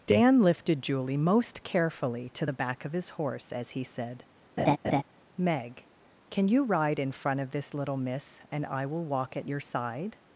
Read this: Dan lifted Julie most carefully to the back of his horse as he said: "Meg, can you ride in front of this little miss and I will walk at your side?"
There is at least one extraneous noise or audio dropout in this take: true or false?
true